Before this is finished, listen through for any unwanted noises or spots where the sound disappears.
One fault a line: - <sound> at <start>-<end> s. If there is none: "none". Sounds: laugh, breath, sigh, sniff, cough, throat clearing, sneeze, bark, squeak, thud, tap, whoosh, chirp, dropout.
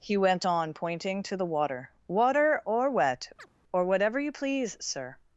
- chirp at 3.4-3.5 s